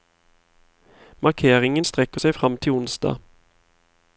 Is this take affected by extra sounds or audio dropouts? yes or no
no